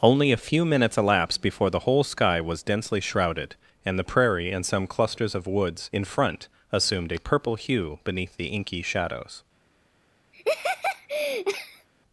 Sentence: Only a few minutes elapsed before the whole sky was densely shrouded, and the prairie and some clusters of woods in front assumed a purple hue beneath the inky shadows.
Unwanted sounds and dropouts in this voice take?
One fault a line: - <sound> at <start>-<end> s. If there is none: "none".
- laugh at 10.3-11.9 s